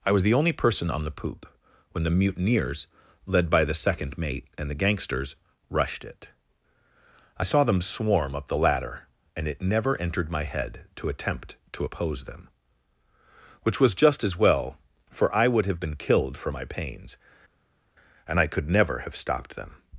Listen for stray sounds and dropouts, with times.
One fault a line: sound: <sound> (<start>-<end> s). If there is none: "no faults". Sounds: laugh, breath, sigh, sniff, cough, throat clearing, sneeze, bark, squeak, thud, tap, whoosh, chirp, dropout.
no faults